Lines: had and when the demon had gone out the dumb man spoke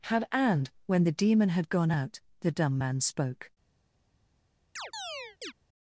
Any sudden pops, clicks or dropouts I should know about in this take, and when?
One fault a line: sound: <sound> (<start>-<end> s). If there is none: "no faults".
sound: chirp (4.8-5.5 s)